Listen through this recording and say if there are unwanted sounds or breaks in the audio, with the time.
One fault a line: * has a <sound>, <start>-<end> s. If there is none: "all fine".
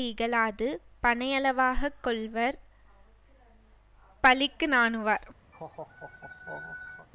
* has a laugh, 5.5-7.1 s